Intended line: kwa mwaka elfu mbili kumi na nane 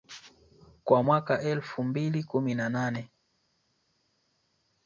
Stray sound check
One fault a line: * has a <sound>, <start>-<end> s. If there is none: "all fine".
all fine